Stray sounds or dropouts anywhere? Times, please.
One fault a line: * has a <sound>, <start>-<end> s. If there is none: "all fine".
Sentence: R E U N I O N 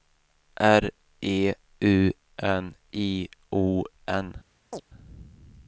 * has a chirp, 4.7-4.8 s